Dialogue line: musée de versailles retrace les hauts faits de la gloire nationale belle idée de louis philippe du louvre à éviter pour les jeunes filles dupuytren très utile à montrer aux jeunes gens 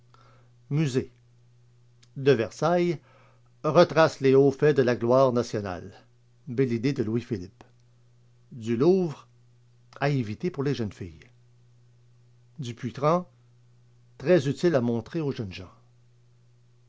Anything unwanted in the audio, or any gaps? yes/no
no